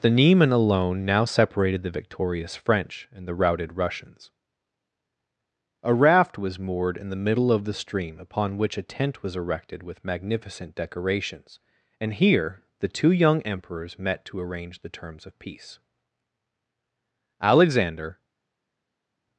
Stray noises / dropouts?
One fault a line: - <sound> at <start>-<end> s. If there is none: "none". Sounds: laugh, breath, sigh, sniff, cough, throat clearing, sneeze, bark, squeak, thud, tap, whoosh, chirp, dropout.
none